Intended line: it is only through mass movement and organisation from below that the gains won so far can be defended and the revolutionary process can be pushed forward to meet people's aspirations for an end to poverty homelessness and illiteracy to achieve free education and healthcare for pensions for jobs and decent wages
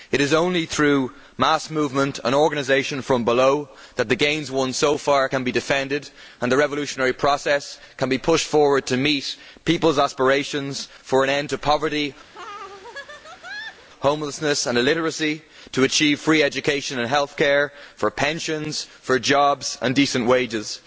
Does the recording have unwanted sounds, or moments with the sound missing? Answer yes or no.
yes